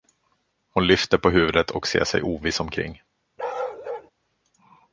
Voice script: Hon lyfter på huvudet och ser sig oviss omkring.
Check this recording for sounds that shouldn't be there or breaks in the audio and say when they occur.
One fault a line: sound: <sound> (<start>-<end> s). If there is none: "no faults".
sound: bark (3.4-4.1 s)